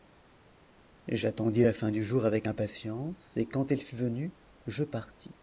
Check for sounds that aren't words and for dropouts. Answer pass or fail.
pass